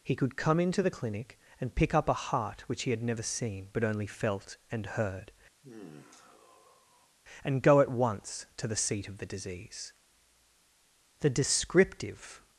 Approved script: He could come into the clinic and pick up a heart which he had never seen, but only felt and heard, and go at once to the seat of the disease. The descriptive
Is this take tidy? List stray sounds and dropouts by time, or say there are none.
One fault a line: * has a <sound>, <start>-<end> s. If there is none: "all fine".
* has a sigh, 5.6-7.2 s